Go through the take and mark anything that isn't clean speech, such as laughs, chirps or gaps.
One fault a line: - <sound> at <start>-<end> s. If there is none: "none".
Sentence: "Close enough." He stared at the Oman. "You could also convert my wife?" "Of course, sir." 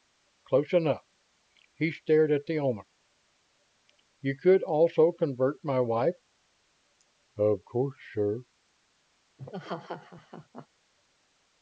- laugh at 9.4-10.7 s